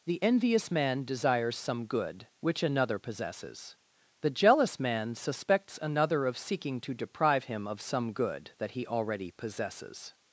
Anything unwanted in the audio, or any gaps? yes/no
no